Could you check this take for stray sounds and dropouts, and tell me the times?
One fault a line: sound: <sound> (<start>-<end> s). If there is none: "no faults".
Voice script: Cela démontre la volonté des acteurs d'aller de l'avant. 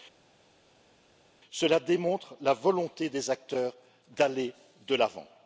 no faults